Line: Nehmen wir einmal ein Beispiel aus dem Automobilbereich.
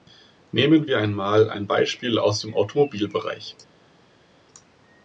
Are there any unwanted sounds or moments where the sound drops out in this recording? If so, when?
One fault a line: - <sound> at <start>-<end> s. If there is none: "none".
none